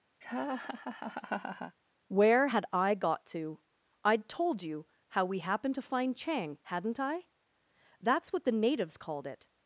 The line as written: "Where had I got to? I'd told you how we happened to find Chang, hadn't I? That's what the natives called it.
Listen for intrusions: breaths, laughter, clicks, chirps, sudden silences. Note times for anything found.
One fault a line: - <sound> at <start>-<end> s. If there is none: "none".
- laugh at 0.2-1.8 s